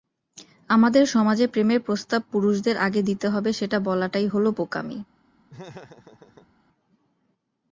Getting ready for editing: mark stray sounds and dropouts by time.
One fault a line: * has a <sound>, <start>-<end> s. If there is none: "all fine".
* has a laugh, 5.5-6.5 s